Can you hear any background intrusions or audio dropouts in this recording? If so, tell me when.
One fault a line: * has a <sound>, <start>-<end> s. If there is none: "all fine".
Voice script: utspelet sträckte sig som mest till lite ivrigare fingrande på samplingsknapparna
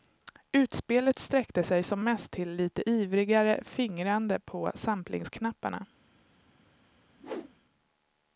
* has a whoosh, 7.2-7.5 s